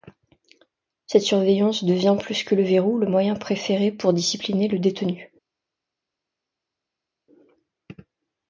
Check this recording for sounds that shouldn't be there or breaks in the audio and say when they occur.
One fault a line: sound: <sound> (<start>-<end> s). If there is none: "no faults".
no faults